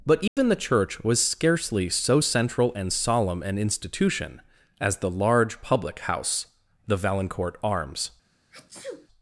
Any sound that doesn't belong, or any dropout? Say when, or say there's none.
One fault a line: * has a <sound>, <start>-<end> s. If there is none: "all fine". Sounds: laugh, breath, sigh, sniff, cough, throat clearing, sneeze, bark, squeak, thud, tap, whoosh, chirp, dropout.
* has a dropout, 0.3-0.4 s
* has a sneeze, 8.5-9.1 s